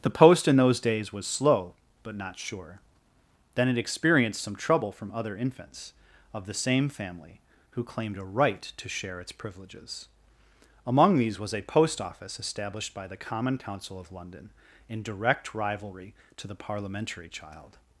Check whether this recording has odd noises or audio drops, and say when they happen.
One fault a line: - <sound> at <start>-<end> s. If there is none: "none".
none